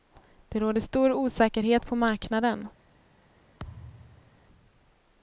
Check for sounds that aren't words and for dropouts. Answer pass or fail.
fail